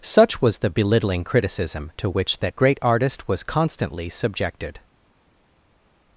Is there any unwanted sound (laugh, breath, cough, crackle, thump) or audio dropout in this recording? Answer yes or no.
no